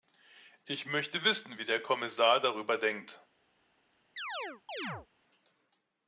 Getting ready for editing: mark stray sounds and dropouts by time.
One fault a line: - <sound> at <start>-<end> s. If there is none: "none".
- chirp at 4.2-5.1 s